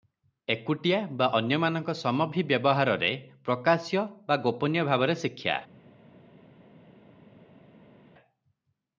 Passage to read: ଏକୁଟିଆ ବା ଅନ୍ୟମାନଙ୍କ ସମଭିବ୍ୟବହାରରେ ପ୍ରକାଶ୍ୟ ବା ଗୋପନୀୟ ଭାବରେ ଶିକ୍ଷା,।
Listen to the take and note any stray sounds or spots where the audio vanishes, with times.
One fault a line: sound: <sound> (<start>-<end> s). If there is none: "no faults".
no faults